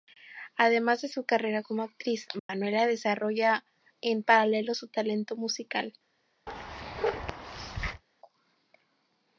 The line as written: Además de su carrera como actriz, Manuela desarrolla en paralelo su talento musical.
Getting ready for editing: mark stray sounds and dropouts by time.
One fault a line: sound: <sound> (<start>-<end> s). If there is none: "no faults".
sound: dropout (2.4-2.5 s)
sound: bark (6.5-8.0 s)